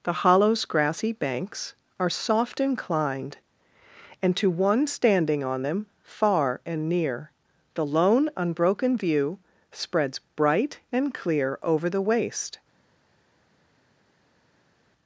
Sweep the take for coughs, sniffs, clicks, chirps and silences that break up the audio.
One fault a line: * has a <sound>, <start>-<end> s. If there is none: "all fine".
all fine